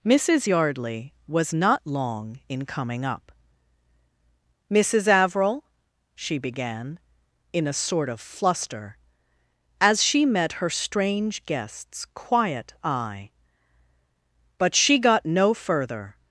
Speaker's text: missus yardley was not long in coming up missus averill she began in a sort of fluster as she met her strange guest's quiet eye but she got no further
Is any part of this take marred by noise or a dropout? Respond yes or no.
no